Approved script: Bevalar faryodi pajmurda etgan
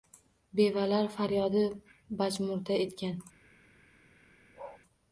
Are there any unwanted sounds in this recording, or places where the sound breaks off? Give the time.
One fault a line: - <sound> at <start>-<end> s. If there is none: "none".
- bark at 4.5-4.8 s